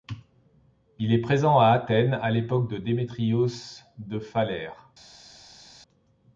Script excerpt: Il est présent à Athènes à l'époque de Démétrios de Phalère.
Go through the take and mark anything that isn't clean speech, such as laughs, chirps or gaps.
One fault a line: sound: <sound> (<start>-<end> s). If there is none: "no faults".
no faults